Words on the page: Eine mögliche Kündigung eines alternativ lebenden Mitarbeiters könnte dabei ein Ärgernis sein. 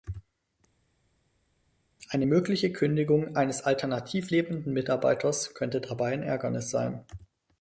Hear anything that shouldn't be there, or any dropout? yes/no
no